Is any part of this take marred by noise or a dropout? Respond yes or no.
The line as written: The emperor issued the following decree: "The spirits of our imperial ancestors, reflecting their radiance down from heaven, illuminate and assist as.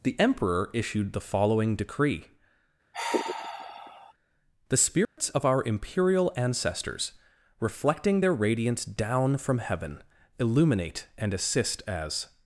yes